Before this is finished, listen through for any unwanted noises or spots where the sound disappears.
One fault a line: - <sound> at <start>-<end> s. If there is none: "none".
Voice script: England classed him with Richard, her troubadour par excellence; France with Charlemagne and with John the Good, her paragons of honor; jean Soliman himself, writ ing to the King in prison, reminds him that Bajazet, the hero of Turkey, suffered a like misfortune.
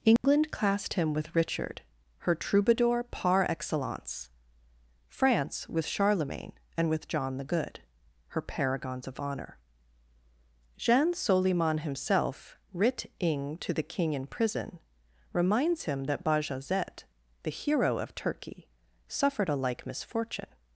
- dropout at 0.2-0.2 s